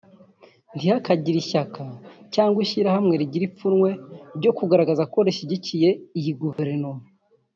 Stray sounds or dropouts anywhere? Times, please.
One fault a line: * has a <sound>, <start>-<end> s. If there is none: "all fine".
* has a dropout, 6.5-6.6 s